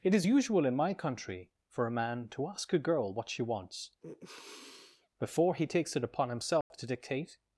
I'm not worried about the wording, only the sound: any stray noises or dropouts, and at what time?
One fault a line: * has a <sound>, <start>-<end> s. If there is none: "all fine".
* has a sniff, 4.0-5.1 s
* has a dropout, 6.6-6.7 s